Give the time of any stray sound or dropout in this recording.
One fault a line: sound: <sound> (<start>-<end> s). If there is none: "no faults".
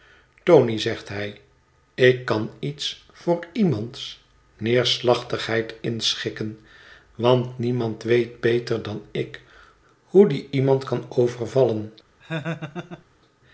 sound: laugh (12.2-13.0 s)